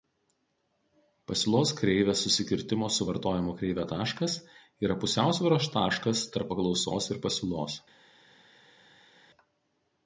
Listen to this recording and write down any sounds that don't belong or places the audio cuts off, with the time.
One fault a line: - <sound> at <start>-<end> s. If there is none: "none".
none